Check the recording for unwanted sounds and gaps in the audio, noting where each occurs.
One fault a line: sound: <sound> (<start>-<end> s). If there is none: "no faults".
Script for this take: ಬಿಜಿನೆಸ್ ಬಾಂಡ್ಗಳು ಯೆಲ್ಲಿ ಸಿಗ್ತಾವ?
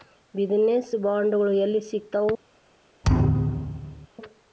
sound: thud (3.0-4.1 s)